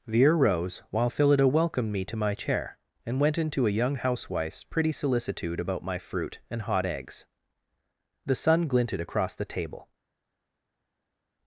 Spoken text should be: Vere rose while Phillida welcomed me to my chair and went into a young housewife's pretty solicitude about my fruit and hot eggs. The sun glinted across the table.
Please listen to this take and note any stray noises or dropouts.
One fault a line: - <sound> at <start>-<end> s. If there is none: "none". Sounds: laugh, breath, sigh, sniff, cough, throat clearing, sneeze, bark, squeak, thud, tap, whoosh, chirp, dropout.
none